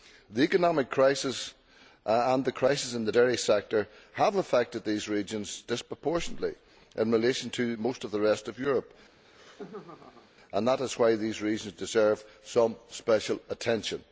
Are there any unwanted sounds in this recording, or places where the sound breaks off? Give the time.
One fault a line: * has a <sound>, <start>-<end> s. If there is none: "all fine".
* has a laugh, 9.1-10.3 s